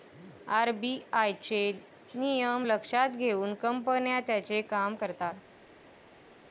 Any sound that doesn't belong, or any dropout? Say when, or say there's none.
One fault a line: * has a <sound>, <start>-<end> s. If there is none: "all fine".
all fine